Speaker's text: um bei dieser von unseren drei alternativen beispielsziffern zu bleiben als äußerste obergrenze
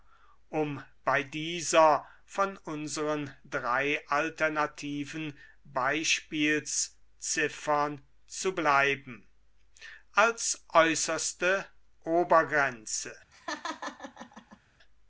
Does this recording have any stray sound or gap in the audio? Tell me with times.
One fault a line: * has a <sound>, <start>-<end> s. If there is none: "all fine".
* has a laugh, 13.3-14.6 s